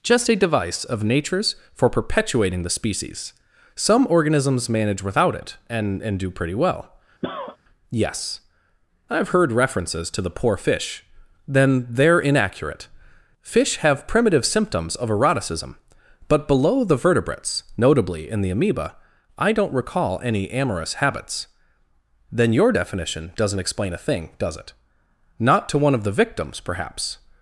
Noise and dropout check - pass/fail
fail